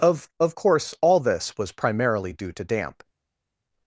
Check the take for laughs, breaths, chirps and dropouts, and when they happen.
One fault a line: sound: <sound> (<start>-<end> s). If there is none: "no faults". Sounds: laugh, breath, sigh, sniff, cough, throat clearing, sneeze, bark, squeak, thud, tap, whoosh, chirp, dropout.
no faults